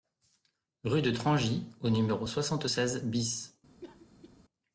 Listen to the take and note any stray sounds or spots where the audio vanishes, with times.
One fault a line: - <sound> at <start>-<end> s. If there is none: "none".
- cough at 3.8-4.4 s